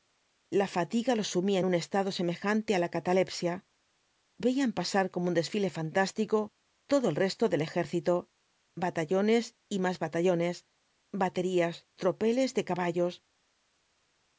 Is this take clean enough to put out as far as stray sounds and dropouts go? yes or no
yes